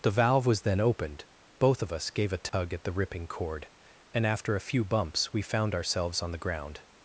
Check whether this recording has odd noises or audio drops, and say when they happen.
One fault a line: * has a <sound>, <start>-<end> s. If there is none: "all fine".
* has a dropout, 2.5-2.5 s